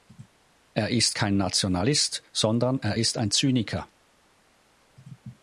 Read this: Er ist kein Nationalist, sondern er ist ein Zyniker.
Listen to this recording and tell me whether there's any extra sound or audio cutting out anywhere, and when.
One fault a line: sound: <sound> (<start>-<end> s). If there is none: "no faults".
no faults